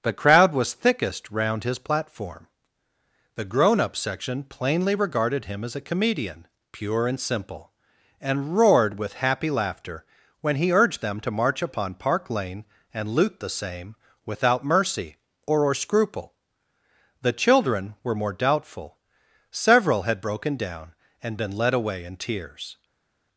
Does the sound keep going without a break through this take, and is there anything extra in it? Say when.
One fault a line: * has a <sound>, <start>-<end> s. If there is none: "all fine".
all fine